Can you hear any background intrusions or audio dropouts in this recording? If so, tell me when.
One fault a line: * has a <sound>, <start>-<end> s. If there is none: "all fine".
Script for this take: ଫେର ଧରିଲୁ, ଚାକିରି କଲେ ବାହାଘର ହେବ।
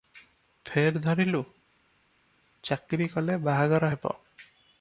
all fine